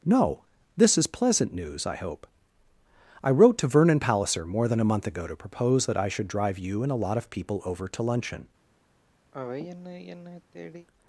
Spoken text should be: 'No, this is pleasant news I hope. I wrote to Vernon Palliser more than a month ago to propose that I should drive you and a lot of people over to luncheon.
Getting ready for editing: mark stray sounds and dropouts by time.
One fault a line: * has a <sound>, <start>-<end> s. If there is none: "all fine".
* has a sigh, 9.3-10.9 s